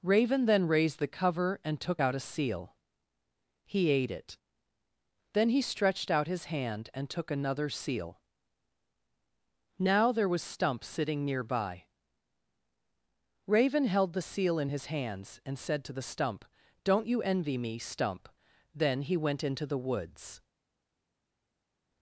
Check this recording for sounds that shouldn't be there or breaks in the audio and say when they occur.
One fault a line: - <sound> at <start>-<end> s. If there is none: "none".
none